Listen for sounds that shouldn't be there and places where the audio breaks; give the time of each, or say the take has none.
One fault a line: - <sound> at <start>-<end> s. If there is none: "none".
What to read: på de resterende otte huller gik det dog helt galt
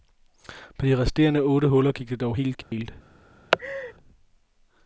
- dropout at 2.6-2.7 s
- laugh at 3.5-3.9 s